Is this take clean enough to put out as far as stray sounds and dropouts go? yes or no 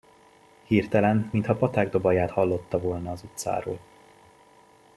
yes